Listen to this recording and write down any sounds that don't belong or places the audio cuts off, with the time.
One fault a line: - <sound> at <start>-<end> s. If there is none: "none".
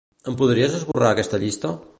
- dropout at 0.9-0.9 s